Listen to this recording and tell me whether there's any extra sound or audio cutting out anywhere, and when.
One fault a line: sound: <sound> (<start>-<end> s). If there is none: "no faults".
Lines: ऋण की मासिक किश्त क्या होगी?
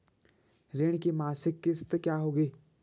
no faults